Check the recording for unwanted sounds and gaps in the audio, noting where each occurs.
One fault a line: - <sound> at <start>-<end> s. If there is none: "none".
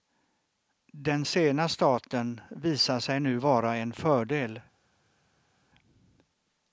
none